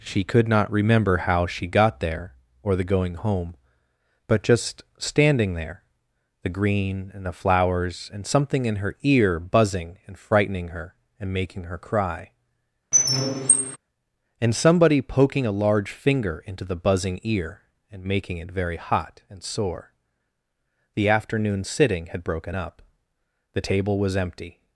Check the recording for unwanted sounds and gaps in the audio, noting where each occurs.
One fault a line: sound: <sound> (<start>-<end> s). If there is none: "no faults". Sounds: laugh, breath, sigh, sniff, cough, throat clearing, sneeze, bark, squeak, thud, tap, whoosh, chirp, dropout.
sound: squeak (12.9-13.8 s)